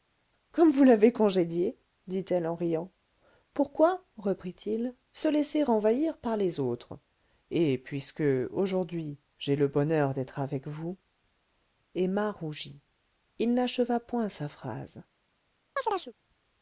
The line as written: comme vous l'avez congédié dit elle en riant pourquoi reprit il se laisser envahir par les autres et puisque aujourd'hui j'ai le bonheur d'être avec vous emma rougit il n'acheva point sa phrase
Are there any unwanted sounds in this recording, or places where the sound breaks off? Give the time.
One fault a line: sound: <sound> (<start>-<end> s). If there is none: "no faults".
sound: chirp (15.8-16.1 s)